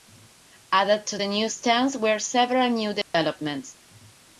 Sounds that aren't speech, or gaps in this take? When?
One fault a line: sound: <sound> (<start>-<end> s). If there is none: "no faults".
sound: dropout (3.0-3.1 s)